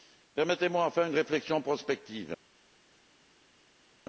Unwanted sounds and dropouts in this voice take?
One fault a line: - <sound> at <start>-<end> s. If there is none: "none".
none